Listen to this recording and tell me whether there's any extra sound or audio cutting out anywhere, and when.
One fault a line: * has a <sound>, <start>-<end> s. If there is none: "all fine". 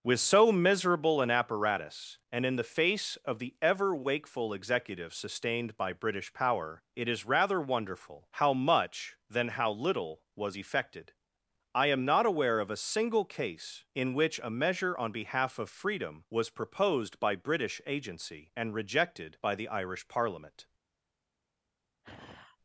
* has a sigh, 22.0-22.6 s